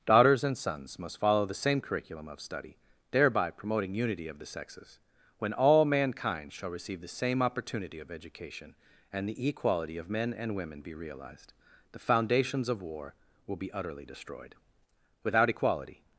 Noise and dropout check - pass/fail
pass